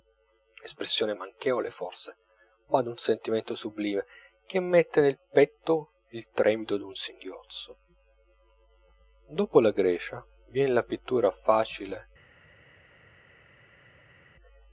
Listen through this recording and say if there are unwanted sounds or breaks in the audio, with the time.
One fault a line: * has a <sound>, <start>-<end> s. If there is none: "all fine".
all fine